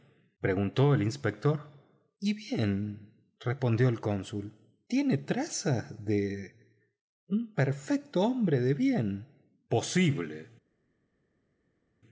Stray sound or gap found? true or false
false